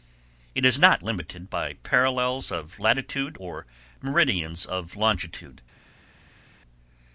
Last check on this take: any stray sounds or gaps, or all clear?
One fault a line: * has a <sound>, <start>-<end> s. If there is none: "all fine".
all fine